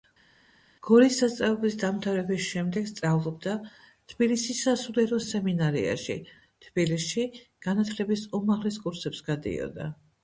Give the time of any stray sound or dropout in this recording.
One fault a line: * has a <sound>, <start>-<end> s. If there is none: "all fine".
all fine